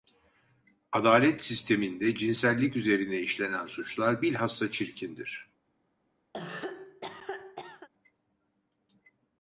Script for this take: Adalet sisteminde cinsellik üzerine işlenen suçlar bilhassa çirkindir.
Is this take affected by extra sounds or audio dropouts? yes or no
yes